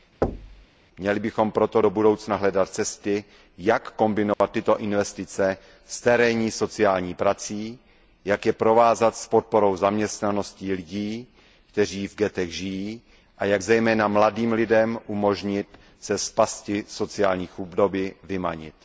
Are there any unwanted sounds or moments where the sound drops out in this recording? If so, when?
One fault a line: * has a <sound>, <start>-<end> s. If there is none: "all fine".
* has a thud, 0.2-0.7 s
* has a dropout, 4.3-4.4 s